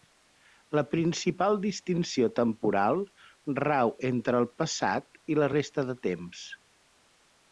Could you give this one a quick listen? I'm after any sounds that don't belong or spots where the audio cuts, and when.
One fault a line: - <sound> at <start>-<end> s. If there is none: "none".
none